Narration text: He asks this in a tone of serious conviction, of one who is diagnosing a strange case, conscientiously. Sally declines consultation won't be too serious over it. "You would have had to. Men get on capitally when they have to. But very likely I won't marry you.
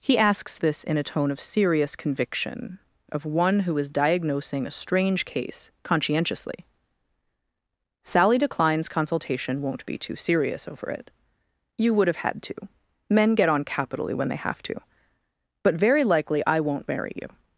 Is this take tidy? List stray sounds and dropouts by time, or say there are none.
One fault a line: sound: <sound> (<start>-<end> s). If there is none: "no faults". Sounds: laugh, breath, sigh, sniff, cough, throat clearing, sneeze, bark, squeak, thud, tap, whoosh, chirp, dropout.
no faults